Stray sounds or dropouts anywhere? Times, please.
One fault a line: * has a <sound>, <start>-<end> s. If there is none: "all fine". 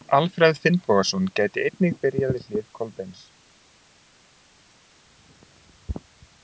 all fine